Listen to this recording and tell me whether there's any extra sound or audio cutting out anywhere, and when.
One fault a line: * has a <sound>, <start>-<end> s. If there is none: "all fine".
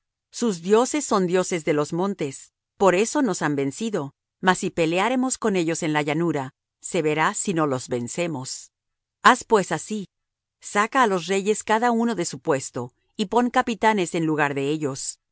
all fine